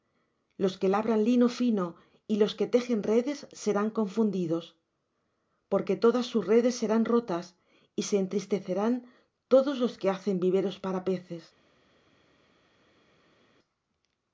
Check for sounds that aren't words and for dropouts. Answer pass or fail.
pass